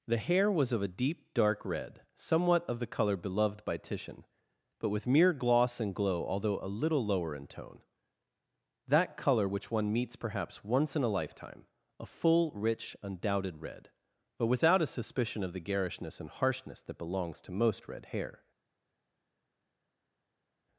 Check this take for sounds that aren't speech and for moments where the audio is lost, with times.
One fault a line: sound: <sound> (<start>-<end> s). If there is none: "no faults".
no faults